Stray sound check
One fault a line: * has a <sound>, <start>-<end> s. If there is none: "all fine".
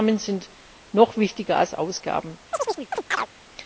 * has a chirp, 2.5-3.3 s